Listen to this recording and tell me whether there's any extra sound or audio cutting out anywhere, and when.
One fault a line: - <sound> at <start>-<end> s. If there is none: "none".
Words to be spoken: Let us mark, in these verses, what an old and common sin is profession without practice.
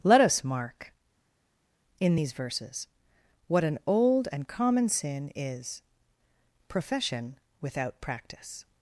none